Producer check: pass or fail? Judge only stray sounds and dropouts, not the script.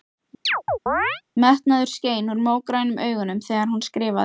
fail